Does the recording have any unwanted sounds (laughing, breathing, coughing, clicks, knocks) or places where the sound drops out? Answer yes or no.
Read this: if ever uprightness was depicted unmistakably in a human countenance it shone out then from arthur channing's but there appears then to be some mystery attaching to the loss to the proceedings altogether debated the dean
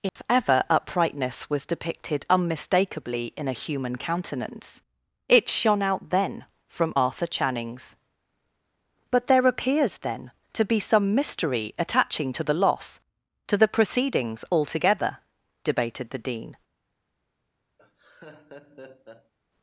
yes